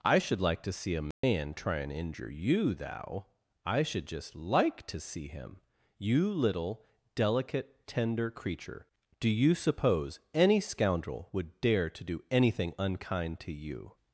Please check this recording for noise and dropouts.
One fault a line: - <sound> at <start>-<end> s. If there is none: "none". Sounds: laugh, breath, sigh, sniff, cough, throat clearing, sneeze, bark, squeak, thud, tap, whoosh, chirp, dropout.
- dropout at 1.1-1.2 s